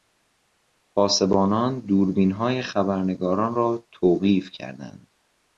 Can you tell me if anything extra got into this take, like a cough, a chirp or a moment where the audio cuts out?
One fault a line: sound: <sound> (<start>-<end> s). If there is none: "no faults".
no faults